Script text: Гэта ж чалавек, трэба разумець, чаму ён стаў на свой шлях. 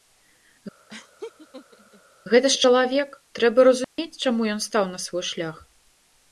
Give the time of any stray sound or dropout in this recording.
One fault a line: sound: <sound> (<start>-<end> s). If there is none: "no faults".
sound: laugh (0.9-2.0 s)
sound: dropout (3.8-4.0 s)